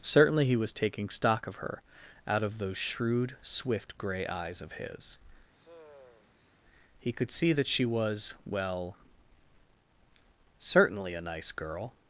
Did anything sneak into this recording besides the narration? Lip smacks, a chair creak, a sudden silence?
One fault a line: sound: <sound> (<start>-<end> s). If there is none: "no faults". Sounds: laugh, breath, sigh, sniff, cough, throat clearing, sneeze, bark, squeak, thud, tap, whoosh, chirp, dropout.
sound: sigh (5.5-6.5 s)